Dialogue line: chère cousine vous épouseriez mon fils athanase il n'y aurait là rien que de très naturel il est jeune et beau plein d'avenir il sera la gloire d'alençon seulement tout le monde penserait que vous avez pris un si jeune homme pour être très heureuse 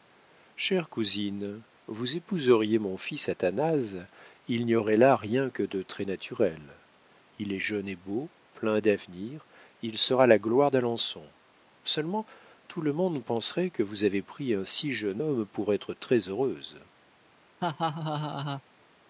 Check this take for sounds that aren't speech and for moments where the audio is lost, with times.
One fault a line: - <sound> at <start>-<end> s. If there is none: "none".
- laugh at 17.6-18.6 s